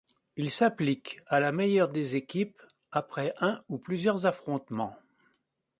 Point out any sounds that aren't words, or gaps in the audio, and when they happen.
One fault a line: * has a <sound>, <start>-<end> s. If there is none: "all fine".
all fine